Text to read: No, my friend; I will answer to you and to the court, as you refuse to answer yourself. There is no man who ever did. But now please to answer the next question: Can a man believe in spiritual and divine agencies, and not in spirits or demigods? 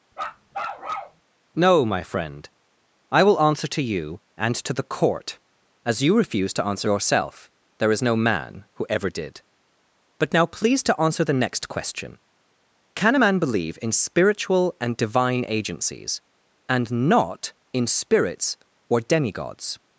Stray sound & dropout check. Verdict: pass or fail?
fail